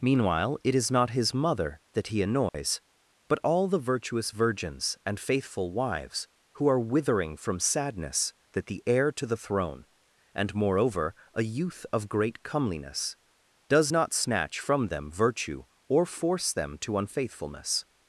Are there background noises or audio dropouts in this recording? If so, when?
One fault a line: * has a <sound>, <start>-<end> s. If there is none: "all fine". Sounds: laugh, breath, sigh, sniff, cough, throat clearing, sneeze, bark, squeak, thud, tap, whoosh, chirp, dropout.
* has a dropout, 2.5-2.5 s